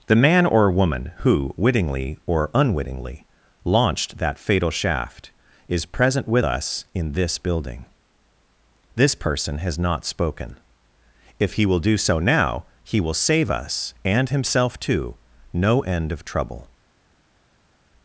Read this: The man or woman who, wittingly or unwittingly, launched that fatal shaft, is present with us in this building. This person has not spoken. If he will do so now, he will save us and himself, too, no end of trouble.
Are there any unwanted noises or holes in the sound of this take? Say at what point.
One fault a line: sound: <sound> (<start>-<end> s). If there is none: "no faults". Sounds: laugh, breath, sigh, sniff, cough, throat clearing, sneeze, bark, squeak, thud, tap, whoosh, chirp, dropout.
no faults